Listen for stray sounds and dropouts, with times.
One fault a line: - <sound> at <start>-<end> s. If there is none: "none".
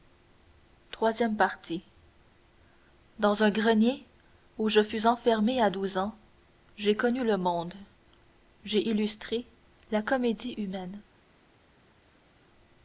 none